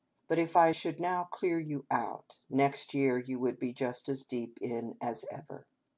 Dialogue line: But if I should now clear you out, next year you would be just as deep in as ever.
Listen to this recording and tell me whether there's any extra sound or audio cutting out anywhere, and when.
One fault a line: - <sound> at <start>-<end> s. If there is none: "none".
none